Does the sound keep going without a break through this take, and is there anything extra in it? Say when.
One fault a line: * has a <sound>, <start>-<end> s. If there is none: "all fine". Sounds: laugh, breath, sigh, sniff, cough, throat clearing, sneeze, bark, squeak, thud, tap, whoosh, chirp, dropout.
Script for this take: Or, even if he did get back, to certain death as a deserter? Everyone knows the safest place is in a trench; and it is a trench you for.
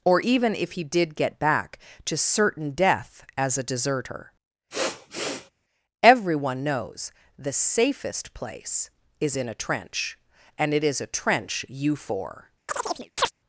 * has a sniff, 4.7-5.5 s
* has a chirp, 12.7-13.3 s